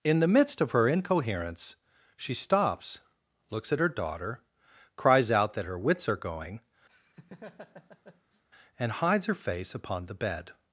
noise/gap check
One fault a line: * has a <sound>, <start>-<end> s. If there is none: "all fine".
* has a laugh, 6.9-8.4 s